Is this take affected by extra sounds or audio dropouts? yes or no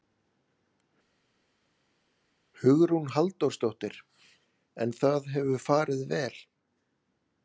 no